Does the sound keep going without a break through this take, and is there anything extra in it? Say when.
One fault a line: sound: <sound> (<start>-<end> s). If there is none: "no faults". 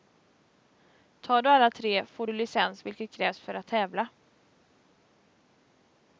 no faults